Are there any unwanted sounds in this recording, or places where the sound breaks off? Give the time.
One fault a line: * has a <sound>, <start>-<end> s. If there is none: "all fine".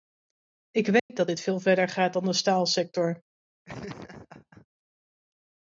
* has a dropout, 1.0-1.1 s
* has a laugh, 3.6-4.7 s